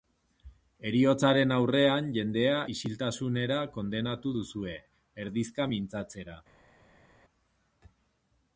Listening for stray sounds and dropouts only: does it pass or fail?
pass